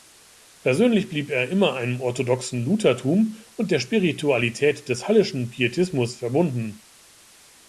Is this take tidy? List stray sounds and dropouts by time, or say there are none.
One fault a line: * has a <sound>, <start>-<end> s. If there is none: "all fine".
all fine